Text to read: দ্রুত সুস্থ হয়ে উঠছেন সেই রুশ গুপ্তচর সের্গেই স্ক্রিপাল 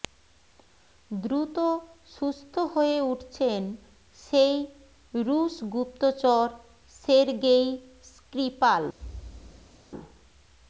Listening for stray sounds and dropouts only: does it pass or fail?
fail